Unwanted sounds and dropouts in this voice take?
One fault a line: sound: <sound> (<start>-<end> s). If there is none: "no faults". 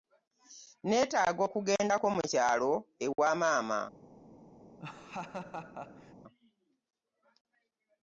sound: dropout (3.2-3.2 s)
sound: laugh (4.8-6.1 s)